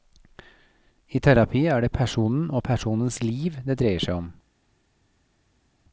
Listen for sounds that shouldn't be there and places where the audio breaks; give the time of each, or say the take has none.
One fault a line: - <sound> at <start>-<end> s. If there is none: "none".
none